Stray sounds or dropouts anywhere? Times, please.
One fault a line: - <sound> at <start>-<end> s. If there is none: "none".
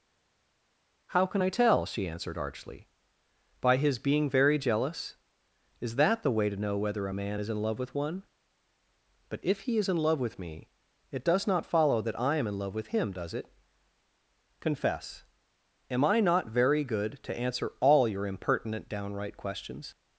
none